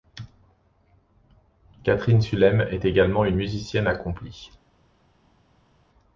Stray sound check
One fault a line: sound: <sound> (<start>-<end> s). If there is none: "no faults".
no faults